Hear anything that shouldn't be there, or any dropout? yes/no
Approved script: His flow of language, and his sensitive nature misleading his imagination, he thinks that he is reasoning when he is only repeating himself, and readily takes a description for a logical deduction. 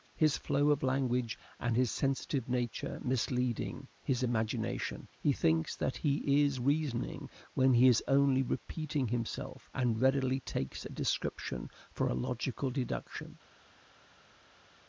no